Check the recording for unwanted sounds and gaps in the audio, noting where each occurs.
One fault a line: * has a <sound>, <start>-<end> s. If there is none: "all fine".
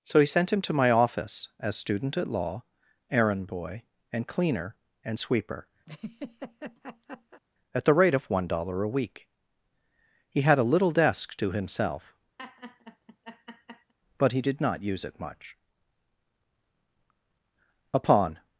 * has a laugh, 5.9-7.4 s
* has a laugh, 12.4-13.9 s